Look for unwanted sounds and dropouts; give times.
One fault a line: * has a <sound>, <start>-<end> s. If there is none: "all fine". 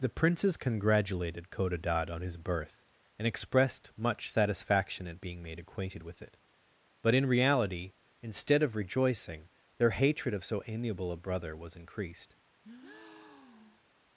* has a breath, 12.6-13.9 s